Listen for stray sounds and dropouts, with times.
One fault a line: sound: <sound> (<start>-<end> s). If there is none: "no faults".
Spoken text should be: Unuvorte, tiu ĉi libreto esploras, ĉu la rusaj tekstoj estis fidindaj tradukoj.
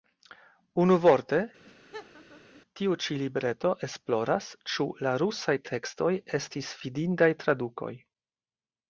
sound: laugh (1.6-2.6 s)